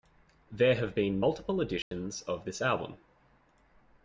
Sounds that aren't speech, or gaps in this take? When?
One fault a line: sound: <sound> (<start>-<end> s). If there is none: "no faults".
sound: dropout (1.8-1.9 s)